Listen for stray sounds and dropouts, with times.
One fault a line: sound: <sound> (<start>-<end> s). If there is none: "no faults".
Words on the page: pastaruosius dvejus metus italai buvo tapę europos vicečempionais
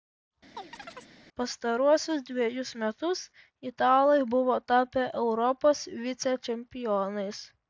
sound: chirp (0.6-1.1 s)